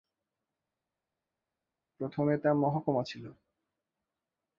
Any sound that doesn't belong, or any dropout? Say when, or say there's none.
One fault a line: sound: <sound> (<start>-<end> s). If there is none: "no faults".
no faults